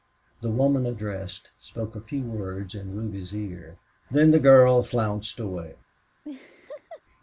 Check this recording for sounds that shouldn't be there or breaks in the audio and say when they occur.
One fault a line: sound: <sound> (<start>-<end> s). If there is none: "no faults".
sound: laugh (6.2-7.0 s)